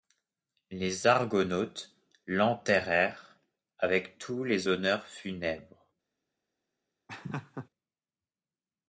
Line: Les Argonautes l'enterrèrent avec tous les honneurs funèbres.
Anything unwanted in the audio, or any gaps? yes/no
yes